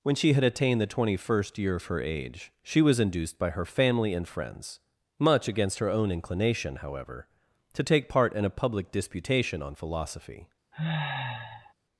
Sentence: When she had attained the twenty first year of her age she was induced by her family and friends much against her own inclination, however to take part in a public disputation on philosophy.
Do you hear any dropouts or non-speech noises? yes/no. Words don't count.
yes